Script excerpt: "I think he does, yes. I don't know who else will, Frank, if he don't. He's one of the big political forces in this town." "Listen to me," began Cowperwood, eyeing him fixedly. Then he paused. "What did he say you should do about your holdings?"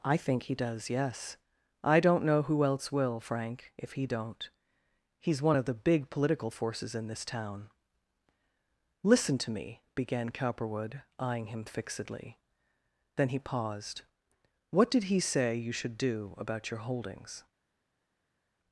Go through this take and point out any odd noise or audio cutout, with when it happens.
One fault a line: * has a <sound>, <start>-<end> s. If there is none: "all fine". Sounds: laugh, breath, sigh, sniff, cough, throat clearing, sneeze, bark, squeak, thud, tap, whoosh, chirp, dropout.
all fine